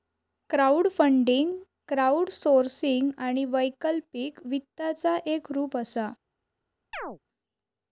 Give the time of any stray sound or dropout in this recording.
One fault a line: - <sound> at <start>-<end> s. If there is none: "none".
- chirp at 6.9-7.2 s